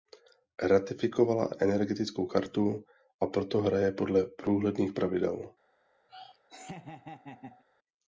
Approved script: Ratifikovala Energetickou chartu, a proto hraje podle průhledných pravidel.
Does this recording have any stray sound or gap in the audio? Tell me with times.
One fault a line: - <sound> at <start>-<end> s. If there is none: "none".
- laugh at 6.1-7.6 s